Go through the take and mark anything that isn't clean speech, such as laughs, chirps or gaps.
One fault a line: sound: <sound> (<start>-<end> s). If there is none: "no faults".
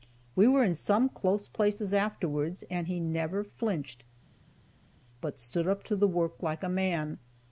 no faults